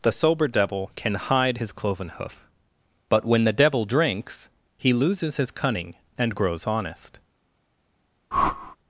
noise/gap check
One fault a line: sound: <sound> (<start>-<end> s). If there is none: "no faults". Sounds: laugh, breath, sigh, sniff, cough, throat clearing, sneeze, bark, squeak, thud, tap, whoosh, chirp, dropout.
sound: whoosh (8.3-8.8 s)